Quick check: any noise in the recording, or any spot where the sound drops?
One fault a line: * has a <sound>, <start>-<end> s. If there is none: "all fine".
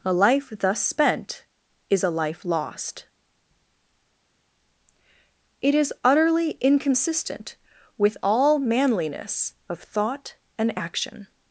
all fine